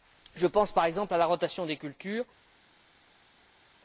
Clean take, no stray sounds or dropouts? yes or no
yes